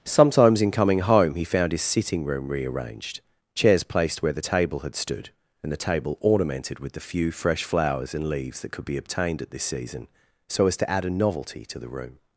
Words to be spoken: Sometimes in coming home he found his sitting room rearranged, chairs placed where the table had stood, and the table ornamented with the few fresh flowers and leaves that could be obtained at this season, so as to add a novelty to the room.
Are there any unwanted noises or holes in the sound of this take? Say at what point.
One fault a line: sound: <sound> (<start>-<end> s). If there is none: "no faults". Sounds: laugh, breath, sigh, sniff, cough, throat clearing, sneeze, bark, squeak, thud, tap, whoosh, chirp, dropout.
no faults